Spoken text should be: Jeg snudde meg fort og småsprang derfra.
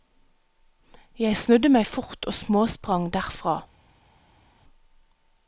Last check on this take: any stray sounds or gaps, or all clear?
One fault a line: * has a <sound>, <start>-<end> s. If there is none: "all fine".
all fine